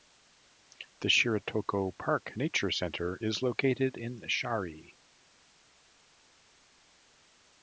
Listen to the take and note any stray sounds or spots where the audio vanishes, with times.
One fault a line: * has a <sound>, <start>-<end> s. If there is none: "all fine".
all fine